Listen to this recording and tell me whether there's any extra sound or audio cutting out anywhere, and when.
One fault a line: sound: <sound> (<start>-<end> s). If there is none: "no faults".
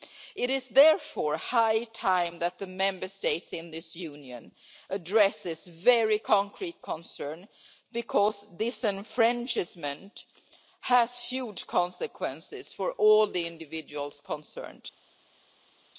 no faults